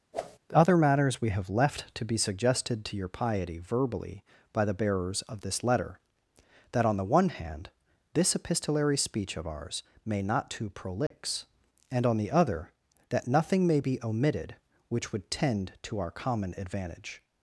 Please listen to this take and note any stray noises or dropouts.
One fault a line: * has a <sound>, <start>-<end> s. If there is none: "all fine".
* has a whoosh, 0.1-0.4 s
* has a dropout, 11.1-11.1 s